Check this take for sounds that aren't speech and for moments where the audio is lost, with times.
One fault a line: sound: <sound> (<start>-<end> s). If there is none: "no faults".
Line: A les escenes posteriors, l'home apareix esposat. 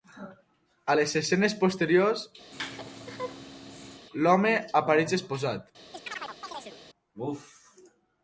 sound: laugh (2.5-4.1 s)
sound: chirp (5.9-6.8 s)